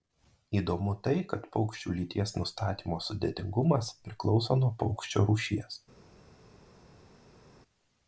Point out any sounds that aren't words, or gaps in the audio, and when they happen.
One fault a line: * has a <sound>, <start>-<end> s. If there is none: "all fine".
all fine